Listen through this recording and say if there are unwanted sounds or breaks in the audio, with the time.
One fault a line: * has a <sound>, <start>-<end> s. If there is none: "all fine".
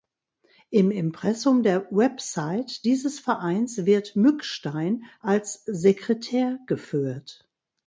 all fine